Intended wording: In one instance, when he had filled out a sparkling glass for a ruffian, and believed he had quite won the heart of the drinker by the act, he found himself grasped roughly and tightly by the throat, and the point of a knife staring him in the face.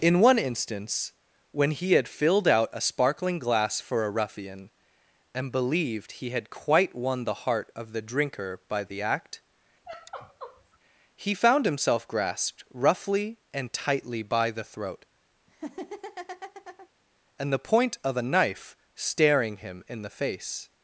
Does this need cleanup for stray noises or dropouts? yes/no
yes